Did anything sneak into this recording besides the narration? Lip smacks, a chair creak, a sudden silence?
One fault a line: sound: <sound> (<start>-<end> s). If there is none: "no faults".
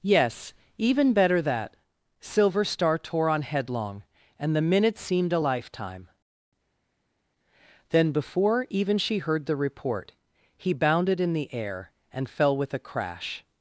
no faults